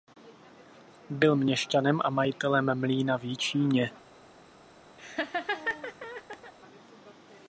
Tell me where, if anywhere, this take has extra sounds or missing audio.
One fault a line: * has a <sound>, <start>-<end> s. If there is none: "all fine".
* has a laugh, 5.0-6.5 s